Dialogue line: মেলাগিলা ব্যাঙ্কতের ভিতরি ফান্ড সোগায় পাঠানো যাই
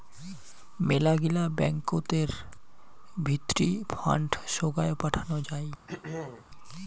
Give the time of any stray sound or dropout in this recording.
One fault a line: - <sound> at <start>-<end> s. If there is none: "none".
- throat clearing at 5.9-6.5 s